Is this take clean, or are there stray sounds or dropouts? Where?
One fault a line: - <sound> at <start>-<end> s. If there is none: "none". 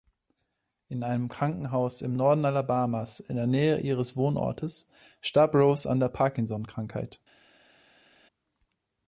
none